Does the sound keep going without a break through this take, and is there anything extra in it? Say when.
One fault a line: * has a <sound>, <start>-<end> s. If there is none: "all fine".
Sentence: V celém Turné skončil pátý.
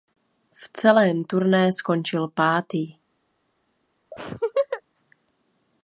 * has a laugh, 4.1-4.8 s